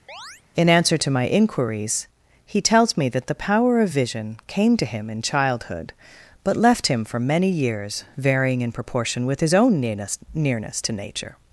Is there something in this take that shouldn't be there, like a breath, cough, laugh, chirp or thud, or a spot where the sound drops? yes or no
yes